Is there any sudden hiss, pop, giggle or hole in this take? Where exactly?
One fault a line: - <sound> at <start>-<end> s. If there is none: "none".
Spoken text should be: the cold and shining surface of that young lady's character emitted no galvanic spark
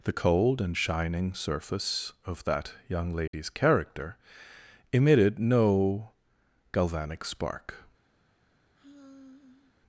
- dropout at 3.3-3.3 s
- sigh at 8.8-9.8 s